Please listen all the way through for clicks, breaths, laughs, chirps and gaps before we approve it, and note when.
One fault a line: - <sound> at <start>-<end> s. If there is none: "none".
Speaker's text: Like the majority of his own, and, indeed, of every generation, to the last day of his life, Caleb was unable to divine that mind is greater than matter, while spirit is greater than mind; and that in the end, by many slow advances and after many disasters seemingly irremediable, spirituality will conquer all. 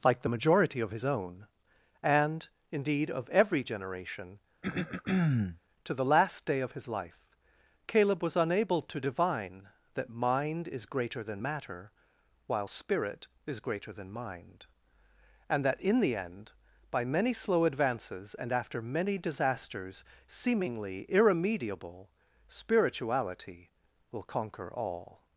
- throat clearing at 4.6-5.6 s